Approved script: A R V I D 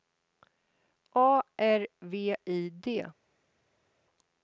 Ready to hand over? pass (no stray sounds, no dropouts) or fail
pass